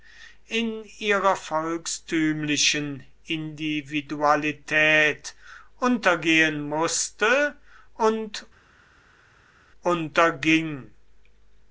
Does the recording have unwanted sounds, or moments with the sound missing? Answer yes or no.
no